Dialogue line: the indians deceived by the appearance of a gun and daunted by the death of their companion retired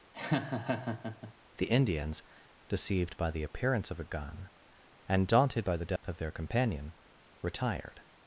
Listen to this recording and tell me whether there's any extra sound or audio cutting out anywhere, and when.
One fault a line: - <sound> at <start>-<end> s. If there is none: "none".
- laugh at 0.1-1.3 s
- dropout at 6.0-6.0 s